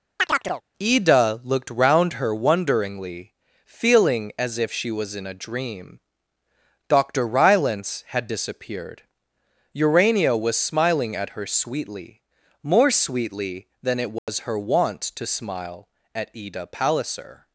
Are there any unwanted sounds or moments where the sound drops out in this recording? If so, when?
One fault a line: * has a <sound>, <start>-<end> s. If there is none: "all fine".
* has a chirp, 0.2-0.6 s
* has a dropout, 14.2-14.3 s